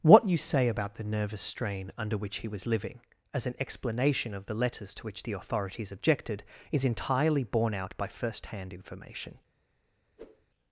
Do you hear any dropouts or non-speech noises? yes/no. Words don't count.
yes